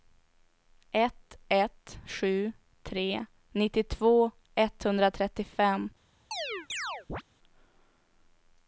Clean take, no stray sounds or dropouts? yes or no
no